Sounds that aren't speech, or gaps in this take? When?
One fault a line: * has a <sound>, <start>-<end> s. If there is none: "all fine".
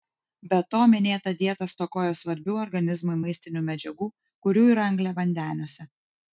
all fine